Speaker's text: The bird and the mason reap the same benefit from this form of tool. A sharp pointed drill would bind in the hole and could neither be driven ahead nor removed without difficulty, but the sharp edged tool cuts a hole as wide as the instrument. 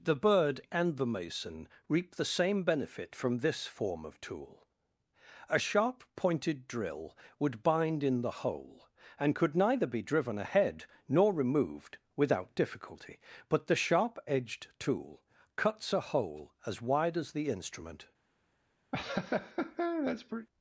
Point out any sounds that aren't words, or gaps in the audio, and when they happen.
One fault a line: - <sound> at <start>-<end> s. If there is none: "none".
- laugh at 18.9-20.5 s